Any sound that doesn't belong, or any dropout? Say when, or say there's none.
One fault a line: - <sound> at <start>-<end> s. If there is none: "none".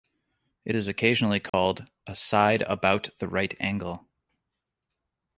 - dropout at 1.5-1.5 s